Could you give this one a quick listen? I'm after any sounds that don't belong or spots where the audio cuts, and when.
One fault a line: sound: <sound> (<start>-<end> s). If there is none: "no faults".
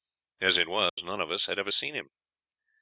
sound: dropout (0.9-1.0 s)